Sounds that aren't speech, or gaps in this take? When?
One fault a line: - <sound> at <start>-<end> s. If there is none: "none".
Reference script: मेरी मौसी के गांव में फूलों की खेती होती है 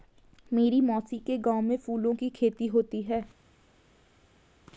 none